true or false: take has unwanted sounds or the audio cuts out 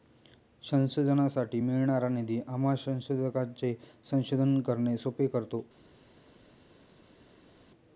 false